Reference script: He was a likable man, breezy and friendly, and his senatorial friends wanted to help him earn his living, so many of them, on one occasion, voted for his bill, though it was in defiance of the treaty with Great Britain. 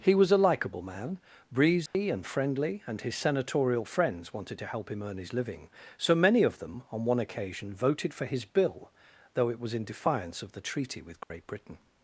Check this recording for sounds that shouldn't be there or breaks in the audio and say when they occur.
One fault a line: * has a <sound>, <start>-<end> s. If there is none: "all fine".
* has a dropout, 1.9-1.9 s
* has a dropout, 11.2-11.3 s